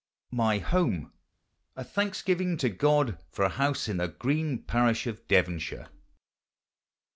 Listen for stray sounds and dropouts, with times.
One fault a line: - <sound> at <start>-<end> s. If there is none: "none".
none